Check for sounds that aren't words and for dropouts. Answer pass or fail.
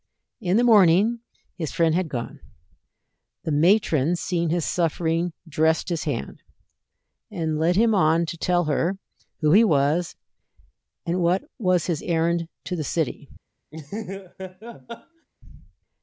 fail